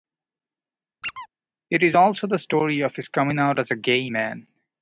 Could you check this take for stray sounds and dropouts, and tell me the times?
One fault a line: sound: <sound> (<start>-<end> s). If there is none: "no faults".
sound: squeak (1.0-1.3 s)